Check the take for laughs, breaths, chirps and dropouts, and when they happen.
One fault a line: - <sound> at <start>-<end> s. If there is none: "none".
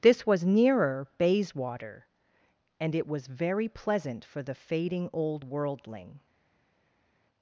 none